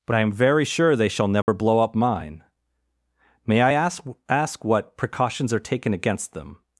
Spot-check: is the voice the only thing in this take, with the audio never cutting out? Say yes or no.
no